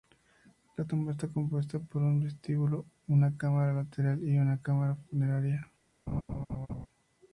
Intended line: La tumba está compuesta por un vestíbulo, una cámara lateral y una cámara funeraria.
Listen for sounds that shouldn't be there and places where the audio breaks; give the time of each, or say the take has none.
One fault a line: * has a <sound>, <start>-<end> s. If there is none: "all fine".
* has a laugh, 6.1-6.9 s